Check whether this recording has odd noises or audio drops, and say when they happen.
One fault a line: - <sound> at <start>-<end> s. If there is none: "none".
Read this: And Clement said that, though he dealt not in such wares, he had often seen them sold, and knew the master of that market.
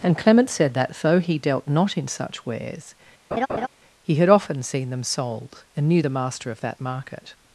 - laugh at 3.3-3.7 s